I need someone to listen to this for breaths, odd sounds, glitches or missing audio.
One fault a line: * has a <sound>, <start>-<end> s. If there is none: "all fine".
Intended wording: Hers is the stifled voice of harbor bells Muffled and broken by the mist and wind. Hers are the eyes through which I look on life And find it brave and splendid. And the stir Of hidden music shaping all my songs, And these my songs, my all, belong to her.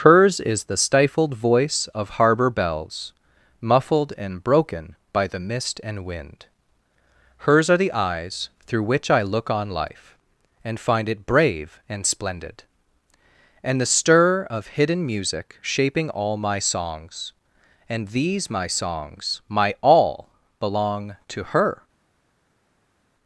all fine